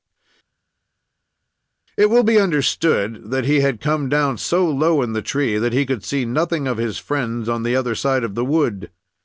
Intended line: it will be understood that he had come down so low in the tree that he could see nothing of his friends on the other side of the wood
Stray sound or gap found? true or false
false